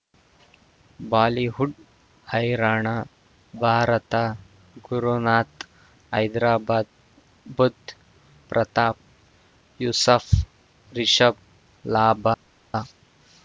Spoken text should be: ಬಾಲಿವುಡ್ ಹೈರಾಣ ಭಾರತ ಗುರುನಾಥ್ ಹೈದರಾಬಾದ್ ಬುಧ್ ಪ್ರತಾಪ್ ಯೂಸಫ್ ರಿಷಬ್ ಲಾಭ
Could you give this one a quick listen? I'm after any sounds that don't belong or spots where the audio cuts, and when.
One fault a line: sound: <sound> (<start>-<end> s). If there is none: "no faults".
no faults